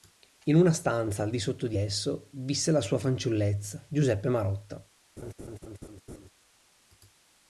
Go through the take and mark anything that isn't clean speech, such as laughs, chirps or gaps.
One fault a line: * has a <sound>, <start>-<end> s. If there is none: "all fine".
* has a laugh, 5.2-6.3 s